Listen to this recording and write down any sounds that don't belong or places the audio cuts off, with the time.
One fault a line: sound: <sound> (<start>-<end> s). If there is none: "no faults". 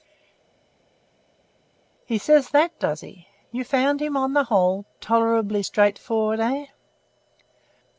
no faults